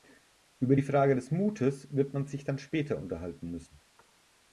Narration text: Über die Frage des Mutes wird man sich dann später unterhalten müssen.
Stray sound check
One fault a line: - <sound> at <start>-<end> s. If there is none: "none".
none